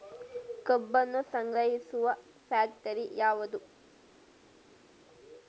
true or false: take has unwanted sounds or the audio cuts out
false